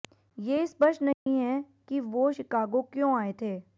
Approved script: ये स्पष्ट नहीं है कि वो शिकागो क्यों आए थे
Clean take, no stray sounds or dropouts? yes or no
no